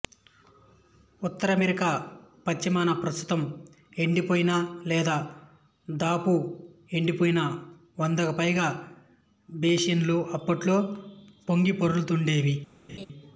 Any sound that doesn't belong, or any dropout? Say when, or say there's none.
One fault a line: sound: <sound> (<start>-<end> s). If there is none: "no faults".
sound: laugh (12.9-13.1 s)